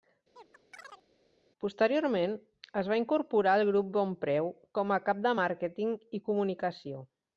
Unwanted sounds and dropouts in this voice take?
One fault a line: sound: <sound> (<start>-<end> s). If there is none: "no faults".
sound: chirp (0.4-1.1 s)